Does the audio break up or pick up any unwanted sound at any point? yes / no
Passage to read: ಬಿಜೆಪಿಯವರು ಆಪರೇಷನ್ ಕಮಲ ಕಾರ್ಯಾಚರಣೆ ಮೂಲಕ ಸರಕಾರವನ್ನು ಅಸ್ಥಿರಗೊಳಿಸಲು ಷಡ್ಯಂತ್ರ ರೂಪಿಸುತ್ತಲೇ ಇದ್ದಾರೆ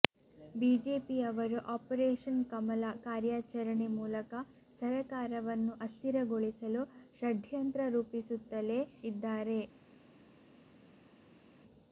no